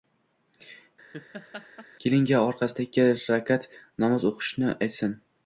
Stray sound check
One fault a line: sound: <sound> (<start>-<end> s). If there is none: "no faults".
sound: laugh (1.1-1.9 s)